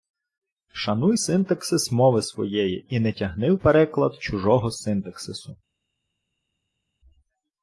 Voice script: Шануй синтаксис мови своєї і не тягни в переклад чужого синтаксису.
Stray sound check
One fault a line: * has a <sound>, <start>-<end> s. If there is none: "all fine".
all fine